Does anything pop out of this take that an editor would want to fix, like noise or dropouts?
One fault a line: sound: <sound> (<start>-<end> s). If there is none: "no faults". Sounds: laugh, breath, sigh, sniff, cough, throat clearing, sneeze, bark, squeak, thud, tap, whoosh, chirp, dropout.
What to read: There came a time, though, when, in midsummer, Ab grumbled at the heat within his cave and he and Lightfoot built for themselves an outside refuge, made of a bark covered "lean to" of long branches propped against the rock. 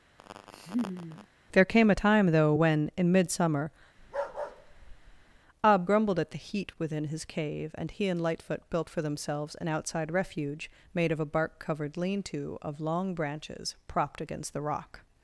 sound: laugh (0.2-1.3 s)
sound: bark (4.0-5.4 s)